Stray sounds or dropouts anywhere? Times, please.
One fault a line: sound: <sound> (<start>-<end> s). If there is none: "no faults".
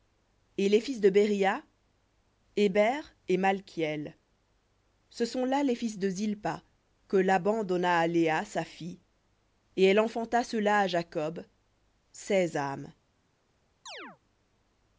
sound: chirp (13.9-14.2 s)